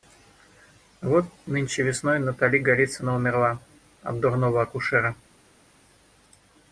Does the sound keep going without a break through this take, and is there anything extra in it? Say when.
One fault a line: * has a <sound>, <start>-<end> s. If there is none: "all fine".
all fine